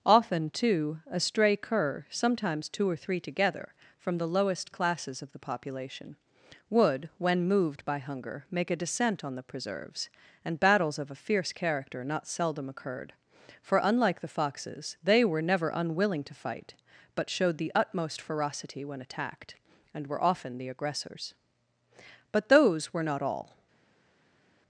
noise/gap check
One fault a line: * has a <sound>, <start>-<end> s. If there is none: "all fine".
all fine